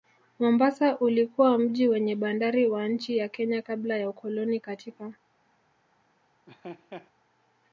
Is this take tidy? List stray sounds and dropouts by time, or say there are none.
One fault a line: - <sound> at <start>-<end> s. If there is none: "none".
- laugh at 6.5-7.1 s